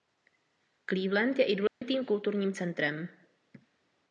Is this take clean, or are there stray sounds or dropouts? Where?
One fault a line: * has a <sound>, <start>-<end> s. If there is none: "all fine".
* has a dropout, 1.7-1.8 s